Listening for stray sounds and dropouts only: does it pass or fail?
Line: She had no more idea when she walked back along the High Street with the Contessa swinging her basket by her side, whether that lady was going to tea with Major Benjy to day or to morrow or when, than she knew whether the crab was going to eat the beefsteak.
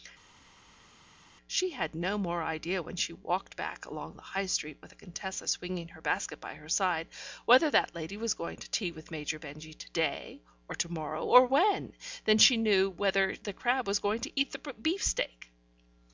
pass